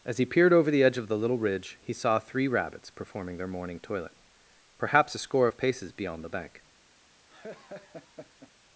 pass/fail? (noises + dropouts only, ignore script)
fail